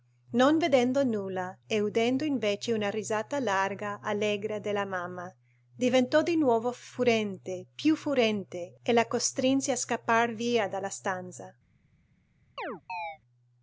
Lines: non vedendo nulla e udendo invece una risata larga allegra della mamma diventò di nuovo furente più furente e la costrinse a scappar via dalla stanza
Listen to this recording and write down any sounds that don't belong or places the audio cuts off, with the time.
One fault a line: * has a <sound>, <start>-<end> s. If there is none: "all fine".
* has a chirp, 12.6-13.2 s